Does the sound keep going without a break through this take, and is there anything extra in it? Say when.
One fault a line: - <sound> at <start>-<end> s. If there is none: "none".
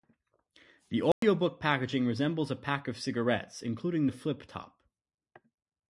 - dropout at 1.1-1.2 s